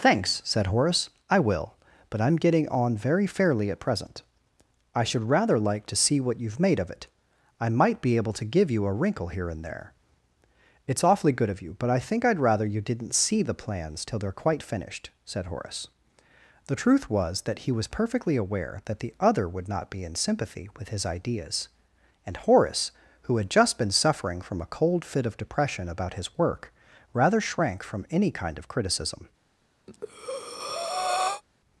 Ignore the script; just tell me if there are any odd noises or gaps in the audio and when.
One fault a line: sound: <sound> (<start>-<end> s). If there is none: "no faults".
sound: breath (29.9-31.4 s)